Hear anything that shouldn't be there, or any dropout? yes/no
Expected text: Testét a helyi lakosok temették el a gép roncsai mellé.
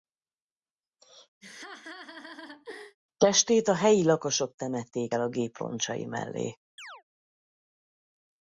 yes